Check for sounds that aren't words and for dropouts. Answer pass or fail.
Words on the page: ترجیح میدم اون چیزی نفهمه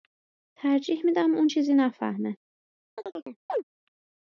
fail